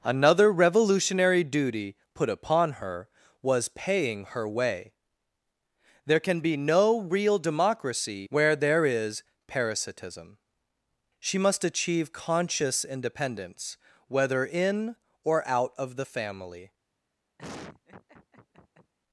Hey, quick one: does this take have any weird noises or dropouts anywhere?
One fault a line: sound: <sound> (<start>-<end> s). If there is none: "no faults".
sound: laugh (17.4-18.9 s)